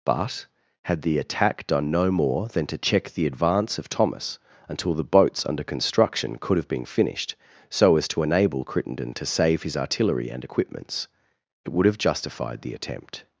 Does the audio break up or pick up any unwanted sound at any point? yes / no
no